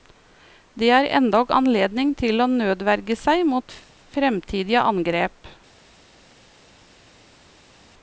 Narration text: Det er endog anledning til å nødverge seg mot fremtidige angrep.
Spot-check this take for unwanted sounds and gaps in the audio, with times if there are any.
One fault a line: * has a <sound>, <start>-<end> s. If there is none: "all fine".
all fine